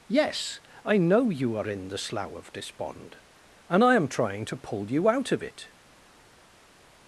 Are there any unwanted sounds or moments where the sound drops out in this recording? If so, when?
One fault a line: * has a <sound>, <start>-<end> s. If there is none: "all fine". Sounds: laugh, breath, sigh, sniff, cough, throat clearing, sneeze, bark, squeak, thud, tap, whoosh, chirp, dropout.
all fine